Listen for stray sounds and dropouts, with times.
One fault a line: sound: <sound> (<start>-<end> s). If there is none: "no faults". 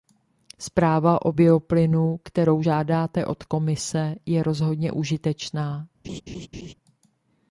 sound: laugh (6.0-6.7 s)